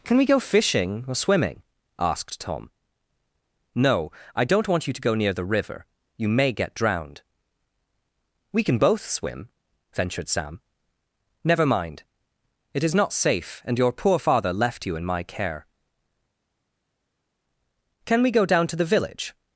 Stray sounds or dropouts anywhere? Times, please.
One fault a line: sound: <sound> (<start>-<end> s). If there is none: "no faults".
no faults